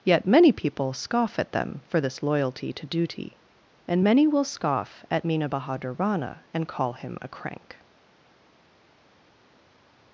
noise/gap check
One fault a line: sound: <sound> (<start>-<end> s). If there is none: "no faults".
no faults